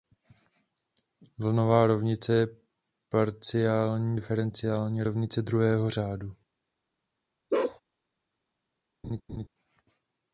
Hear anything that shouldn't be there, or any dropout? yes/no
yes